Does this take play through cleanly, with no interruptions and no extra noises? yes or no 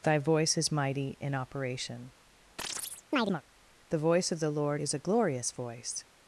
no